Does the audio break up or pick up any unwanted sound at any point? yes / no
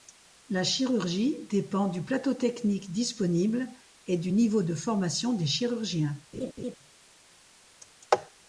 yes